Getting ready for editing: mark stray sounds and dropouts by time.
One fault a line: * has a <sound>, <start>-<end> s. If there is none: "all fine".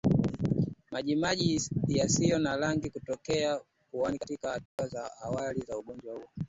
* has a dropout, 4.7-4.8 s